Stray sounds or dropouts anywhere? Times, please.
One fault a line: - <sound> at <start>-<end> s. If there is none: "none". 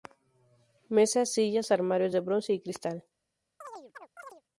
- chirp at 3.6-4.4 s